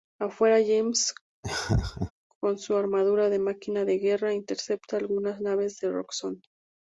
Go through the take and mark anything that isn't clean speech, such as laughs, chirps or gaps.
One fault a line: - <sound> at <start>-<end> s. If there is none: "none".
- laugh at 1.4-2.1 s